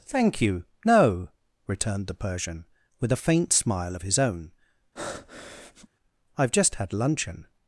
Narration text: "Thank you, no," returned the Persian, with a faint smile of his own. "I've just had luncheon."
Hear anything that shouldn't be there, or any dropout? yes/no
yes